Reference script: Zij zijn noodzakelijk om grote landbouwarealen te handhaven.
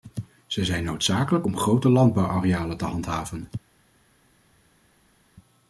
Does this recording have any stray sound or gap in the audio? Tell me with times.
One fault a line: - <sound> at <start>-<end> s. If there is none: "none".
none